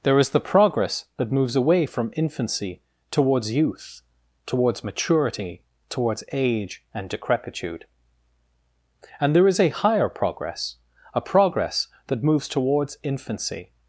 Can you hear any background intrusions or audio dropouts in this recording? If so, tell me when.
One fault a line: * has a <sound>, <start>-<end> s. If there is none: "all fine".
all fine